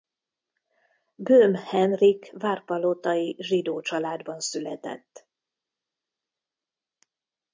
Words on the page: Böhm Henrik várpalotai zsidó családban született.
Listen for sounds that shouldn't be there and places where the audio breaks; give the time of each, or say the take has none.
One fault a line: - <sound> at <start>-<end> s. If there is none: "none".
none